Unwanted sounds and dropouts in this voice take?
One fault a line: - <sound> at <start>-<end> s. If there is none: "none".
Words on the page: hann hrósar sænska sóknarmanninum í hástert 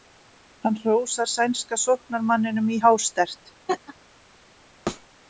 - laugh at 3.7-3.9 s
- thud at 4.9-5.1 s